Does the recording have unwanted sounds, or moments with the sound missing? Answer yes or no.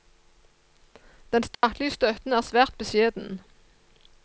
yes